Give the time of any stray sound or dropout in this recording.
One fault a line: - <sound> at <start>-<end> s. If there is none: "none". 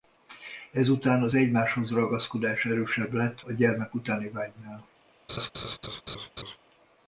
- laugh at 5.3-6.6 s